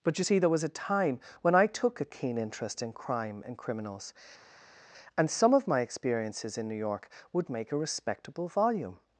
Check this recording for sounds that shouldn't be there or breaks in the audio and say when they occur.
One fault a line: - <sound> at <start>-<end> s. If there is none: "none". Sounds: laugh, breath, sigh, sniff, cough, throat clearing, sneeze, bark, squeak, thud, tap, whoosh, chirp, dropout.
none